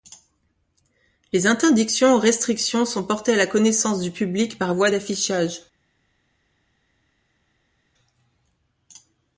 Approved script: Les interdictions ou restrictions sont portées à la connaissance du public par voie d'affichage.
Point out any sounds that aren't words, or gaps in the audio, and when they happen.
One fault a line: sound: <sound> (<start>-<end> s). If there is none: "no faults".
no faults